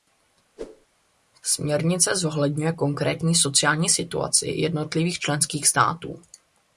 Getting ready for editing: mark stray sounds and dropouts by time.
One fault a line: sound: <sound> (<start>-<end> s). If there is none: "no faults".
sound: whoosh (0.6-0.9 s)